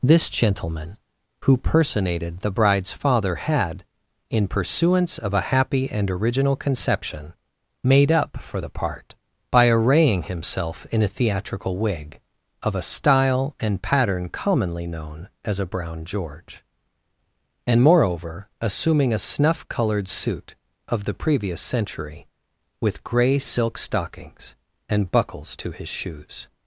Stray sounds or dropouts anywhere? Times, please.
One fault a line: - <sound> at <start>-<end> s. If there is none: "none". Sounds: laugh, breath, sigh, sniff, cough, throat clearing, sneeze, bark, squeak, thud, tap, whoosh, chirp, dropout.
none